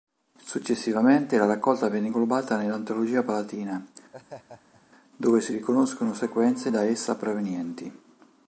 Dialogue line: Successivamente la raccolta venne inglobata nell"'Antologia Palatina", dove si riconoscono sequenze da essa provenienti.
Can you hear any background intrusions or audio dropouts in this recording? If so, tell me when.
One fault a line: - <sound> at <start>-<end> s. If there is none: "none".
- laugh at 4.1-4.8 s